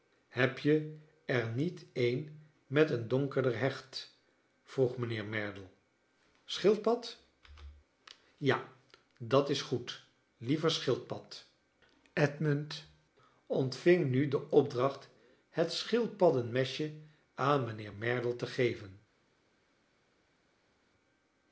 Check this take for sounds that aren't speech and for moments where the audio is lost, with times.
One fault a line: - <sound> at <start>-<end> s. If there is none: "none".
none